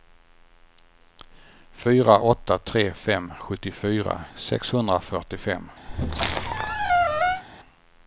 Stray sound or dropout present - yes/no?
yes